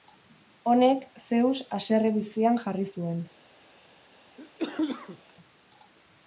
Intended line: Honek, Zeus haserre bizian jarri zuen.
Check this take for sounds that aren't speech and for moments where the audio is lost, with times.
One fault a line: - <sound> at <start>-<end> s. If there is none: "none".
- cough at 4.4-5.3 s